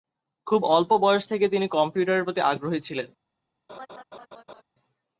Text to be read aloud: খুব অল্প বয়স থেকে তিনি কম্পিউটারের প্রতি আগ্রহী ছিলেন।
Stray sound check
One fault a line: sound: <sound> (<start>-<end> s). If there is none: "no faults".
sound: laugh (3.7-4.6 s)